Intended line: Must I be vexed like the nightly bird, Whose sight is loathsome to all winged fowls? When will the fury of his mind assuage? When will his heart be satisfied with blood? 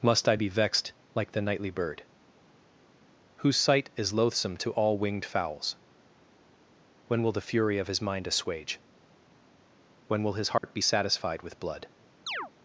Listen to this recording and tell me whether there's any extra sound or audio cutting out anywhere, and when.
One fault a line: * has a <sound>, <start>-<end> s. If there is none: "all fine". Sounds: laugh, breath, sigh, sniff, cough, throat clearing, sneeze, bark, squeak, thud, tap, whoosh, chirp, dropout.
* has a dropout, 10.6-10.6 s
* has a chirp, 12.3-12.5 s